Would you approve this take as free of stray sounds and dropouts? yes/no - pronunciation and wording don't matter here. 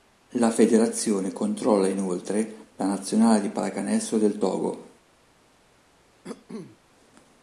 no